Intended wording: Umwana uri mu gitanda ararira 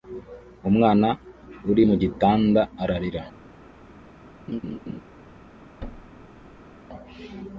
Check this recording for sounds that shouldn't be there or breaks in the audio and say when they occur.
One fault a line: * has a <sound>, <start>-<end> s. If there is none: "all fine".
* has a laugh, 4.5-5.0 s
* has a thud, 5.8-6.8 s